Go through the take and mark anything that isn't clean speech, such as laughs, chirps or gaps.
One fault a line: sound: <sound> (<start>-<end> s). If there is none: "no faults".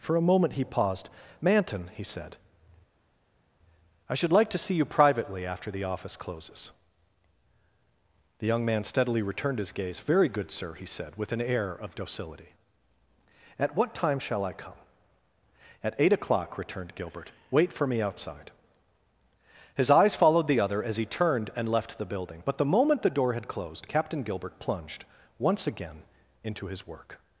no faults